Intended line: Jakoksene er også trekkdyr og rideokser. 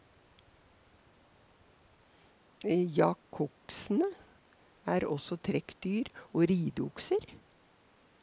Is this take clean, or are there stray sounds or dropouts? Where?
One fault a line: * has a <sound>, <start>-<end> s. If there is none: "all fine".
all fine